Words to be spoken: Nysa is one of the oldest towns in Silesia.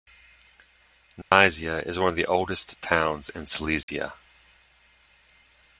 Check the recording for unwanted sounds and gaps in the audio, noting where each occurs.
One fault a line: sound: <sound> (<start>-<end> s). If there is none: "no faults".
sound: dropout (1.2-1.3 s)
sound: dropout (3.8-3.9 s)